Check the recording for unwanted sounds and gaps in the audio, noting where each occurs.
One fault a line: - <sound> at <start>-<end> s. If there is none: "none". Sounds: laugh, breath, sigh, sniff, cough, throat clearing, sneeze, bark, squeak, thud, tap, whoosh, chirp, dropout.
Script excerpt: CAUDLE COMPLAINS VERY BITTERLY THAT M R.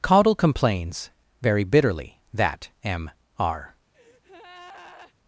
- breath at 3.9-5.1 s